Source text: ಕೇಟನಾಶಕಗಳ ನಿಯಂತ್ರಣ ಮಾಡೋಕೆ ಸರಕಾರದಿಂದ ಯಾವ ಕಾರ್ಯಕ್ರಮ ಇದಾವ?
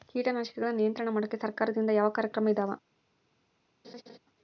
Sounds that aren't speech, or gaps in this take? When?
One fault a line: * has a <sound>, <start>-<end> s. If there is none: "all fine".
* has a laugh, 3.8-4.2 s